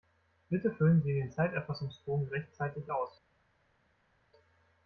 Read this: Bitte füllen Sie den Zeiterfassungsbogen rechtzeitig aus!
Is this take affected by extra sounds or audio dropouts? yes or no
no